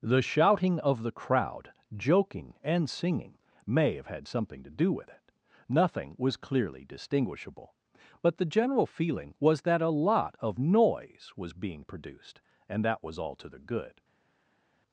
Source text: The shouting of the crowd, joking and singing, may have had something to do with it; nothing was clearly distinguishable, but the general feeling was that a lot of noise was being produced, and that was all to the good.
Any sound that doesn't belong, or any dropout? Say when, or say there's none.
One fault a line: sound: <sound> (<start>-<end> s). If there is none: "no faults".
no faults